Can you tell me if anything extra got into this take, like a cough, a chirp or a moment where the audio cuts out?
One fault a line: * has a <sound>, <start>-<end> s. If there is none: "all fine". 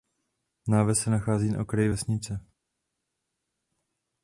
all fine